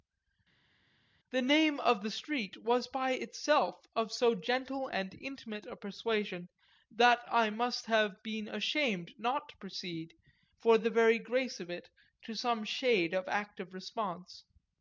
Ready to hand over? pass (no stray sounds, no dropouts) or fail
pass